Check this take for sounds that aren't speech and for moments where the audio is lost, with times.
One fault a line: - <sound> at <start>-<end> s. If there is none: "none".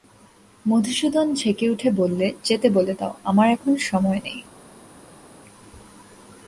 none